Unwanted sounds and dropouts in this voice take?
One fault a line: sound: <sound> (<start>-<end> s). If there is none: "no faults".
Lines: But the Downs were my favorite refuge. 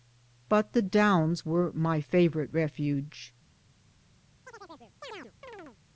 sound: chirp (4.5-5.8 s)